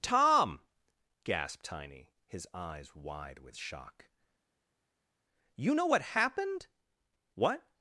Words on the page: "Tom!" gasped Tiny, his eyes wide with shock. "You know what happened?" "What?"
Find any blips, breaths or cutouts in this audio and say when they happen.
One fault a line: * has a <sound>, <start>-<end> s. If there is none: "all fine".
all fine